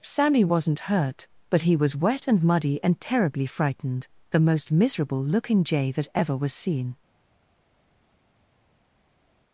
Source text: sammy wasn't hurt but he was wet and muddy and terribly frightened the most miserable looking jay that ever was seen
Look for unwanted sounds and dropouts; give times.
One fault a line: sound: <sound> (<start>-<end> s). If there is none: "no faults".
no faults